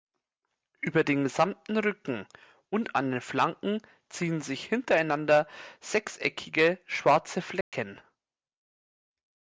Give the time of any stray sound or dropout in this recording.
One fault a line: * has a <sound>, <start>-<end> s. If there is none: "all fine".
* has a dropout, 7.6-7.7 s